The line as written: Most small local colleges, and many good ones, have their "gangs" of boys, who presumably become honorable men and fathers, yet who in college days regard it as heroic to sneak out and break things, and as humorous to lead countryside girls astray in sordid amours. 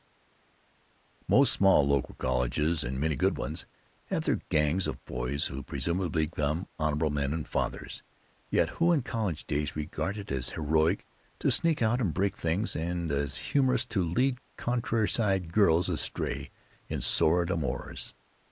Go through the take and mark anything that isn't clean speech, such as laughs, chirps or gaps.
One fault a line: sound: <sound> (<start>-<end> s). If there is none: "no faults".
no faults